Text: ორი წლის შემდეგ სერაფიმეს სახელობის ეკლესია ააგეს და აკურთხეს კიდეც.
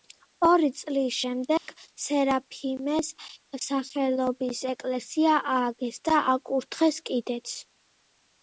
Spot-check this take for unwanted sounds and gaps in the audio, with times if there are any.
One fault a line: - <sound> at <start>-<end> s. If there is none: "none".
- dropout at 1.6-1.7 s